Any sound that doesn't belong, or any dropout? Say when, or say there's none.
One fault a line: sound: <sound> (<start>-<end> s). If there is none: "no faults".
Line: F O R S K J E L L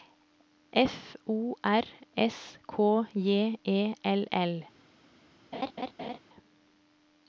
sound: laugh (5.5-6.2 s)